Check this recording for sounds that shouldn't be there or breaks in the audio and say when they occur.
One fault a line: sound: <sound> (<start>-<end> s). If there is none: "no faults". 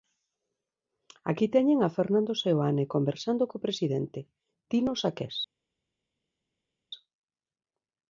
no faults